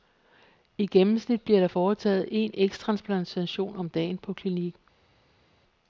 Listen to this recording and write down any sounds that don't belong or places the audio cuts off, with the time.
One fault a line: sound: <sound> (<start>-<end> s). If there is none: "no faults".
no faults